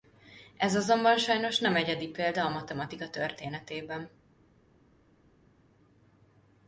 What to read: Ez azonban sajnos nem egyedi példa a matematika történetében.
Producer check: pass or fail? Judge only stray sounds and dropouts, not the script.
pass